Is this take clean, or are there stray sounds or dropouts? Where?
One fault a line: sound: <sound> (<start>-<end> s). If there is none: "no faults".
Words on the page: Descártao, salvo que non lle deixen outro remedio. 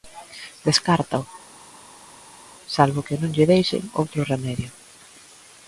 no faults